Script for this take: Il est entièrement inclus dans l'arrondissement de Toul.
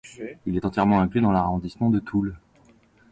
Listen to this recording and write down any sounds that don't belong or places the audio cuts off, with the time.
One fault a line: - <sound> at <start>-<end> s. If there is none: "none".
none